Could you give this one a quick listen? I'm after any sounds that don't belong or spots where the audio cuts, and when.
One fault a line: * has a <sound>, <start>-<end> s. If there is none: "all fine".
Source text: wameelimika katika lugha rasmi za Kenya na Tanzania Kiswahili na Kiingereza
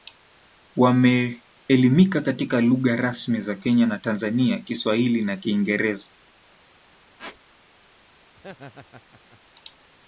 * has a squeak, 7.2-7.4 s
* has a laugh, 8.4-9.4 s